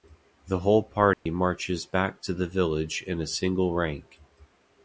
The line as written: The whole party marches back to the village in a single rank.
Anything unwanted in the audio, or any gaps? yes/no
yes